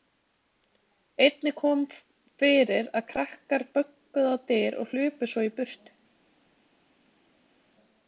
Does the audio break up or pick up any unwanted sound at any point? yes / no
no